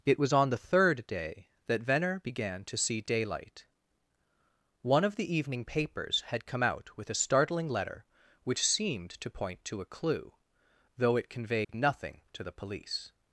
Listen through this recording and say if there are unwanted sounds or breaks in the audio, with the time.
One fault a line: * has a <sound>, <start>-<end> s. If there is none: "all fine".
* has a dropout, 11.6-11.7 s